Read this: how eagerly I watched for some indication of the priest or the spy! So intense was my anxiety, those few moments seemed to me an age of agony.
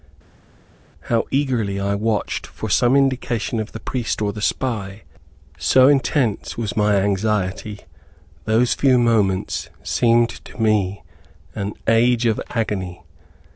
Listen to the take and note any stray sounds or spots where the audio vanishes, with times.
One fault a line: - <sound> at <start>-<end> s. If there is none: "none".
none